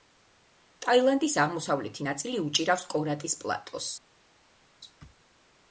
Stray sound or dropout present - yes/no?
no